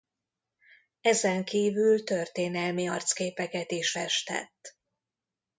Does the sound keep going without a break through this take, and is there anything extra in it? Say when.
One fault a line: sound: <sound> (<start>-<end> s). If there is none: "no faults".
no faults